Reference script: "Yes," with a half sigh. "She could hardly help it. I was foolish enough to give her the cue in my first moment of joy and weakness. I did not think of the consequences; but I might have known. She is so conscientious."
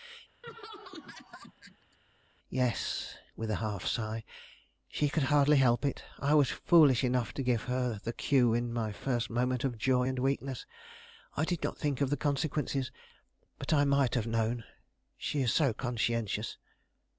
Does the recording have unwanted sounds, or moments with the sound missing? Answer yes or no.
yes